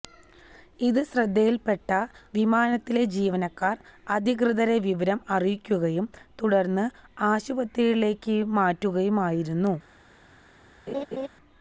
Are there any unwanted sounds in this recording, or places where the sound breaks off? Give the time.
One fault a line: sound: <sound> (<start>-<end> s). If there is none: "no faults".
sound: laugh (10.9-11.3 s)